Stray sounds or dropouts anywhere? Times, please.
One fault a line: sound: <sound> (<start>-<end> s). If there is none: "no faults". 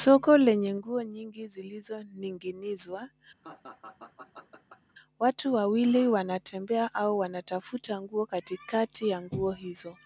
sound: laugh (3.4-4.9 s)